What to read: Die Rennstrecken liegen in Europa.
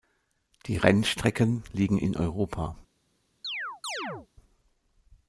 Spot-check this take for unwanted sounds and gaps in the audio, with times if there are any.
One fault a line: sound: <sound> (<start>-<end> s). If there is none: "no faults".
sound: chirp (3.4-4.3 s)